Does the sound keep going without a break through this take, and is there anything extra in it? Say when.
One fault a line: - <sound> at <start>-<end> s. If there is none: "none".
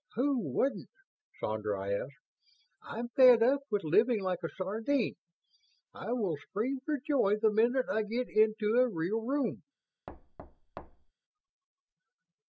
- thud at 10.1-11.1 s